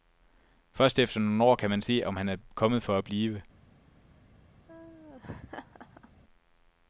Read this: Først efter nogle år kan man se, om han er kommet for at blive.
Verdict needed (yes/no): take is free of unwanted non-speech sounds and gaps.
no